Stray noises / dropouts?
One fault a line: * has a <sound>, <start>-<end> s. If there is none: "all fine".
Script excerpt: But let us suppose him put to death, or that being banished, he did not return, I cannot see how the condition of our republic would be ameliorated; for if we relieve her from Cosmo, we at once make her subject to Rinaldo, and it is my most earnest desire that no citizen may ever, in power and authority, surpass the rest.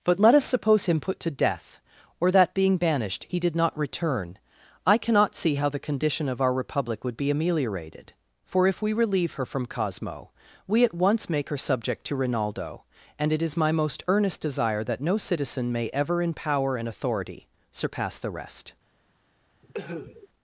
* has a cough, 19.6-20.3 s